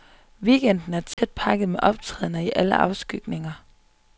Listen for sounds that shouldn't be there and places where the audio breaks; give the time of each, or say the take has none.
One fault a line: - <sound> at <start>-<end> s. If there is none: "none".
- dropout at 1.1-1.2 s